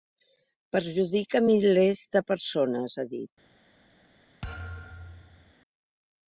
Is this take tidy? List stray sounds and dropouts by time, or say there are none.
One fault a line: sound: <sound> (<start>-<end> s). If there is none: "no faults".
sound: thud (4.4-5.5 s)